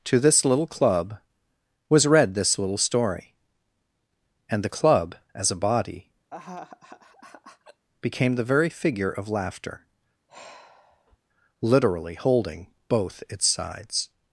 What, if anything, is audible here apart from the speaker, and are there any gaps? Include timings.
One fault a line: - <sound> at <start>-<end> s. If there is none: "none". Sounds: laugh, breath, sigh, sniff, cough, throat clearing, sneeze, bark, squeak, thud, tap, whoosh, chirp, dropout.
- laugh at 6.3-7.9 s
- sigh at 10.3-11.2 s